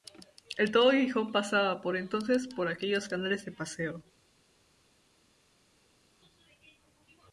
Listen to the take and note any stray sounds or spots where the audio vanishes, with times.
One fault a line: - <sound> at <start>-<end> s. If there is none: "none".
none